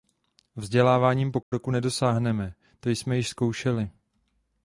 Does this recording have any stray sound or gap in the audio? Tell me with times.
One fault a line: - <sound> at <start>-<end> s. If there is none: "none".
- dropout at 1.4-1.5 s